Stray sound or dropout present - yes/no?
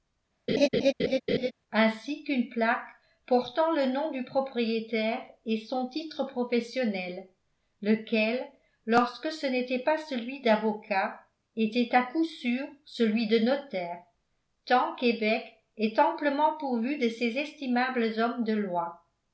yes